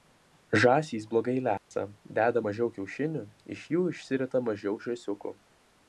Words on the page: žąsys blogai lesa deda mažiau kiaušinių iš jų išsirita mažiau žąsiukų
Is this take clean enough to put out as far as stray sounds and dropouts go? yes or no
no